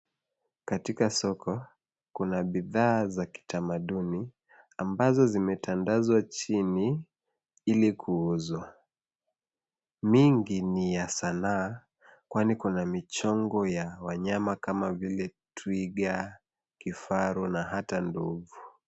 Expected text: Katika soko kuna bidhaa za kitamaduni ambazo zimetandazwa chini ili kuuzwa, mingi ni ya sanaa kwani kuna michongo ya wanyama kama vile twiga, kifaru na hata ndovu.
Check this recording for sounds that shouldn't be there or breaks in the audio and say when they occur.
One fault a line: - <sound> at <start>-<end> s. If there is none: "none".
none